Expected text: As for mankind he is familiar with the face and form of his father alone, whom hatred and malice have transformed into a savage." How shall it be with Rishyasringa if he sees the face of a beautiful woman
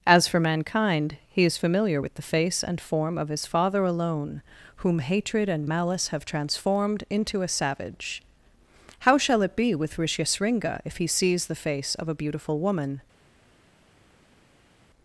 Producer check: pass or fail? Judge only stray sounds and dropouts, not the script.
pass